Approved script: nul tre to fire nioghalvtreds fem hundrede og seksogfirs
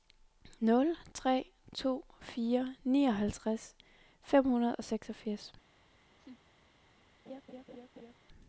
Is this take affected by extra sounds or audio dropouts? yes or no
yes